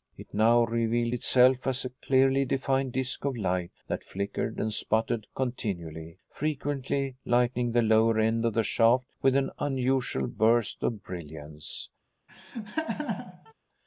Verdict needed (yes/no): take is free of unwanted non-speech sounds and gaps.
no